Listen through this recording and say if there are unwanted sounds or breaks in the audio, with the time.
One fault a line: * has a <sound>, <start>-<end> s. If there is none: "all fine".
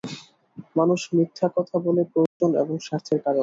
* has a dropout, 2.3-2.4 s